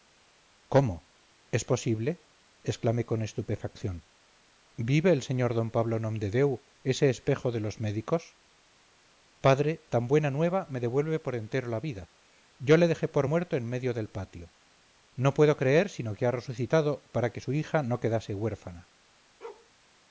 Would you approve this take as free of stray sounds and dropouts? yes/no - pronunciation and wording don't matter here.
no